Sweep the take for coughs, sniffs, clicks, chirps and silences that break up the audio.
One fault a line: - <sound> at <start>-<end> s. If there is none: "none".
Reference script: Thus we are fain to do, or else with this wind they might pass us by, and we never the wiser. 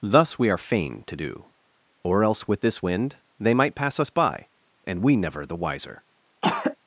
- throat clearing at 6.4-6.8 s